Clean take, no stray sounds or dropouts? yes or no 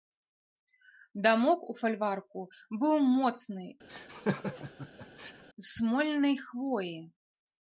no